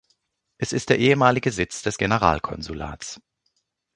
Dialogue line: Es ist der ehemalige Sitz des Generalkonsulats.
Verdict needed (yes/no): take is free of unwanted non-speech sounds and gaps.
yes